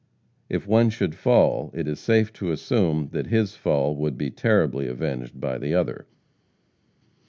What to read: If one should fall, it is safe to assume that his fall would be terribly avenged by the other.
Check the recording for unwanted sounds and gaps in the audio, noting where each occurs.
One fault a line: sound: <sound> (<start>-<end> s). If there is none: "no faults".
no faults